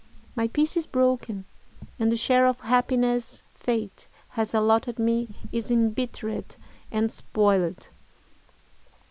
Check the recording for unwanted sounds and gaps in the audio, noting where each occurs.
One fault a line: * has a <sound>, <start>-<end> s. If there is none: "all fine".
all fine